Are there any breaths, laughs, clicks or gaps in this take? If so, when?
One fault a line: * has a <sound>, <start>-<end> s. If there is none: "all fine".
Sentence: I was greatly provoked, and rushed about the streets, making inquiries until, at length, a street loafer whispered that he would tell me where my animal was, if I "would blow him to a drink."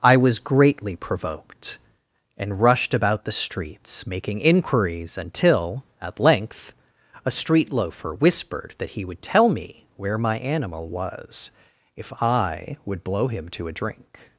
all fine